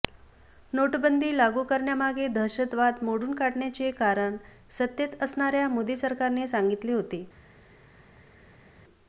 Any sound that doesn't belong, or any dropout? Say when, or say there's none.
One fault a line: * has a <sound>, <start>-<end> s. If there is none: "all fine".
all fine